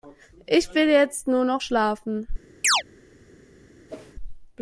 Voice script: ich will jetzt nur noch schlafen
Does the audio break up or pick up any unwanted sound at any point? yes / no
yes